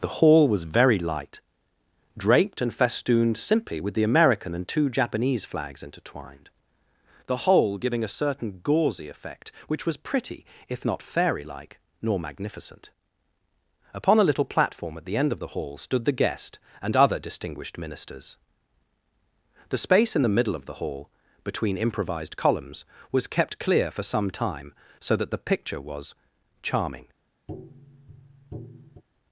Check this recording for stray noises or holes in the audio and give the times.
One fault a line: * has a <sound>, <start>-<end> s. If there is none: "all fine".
* has a tap, 27.5-29.0 s